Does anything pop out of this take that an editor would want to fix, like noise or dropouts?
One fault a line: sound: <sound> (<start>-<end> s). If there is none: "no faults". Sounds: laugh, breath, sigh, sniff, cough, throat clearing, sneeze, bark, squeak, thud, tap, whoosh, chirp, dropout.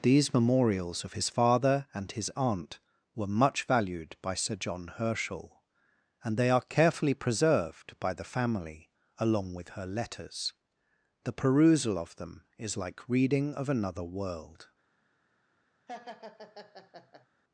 sound: laugh (15.9-17.3 s)